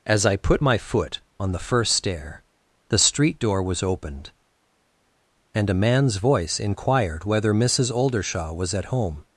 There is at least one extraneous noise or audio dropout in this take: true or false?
false